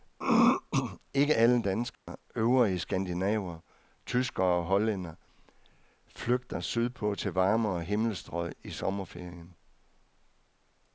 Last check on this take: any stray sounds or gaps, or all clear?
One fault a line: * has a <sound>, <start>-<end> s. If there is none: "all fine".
* has a dropout, 1.9-2.1 s